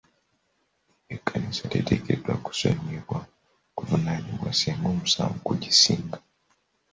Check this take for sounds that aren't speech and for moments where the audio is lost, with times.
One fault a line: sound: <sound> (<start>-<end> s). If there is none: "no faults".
no faults